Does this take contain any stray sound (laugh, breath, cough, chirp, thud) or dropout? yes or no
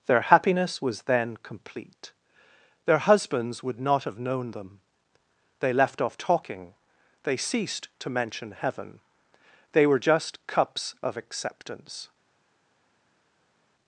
no